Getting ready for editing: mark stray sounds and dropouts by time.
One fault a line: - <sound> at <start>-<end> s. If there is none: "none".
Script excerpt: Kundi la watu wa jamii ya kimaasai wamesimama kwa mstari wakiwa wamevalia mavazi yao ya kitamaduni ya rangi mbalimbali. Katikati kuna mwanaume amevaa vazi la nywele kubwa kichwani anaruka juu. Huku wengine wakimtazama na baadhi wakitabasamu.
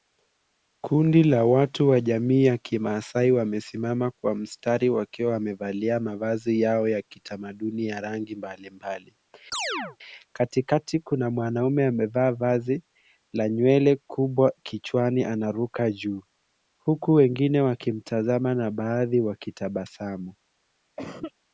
- chirp at 9.5-10.0 s
- cough at 21.0-21.3 s